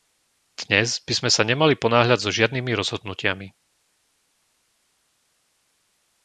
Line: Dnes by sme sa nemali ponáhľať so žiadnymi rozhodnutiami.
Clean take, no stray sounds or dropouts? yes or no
yes